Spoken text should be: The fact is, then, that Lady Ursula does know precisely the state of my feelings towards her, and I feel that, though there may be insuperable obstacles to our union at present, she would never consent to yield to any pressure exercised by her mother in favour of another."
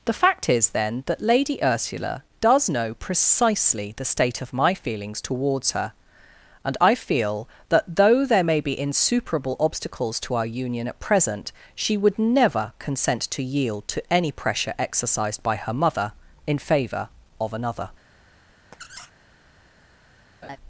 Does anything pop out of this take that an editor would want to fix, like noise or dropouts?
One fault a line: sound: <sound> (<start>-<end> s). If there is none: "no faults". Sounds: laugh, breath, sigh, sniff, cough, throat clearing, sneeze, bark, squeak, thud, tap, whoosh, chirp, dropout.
sound: squeak (18.7-19.1 s)
sound: laugh (20.4-20.6 s)